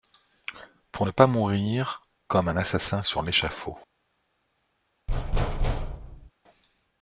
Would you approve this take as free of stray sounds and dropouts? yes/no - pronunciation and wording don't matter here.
no